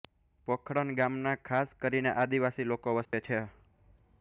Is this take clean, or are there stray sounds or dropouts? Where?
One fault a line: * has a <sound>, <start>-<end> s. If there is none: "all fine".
* has a dropout, 3.1-3.1 s